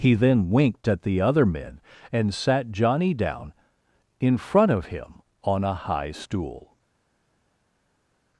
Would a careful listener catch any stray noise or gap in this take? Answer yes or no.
no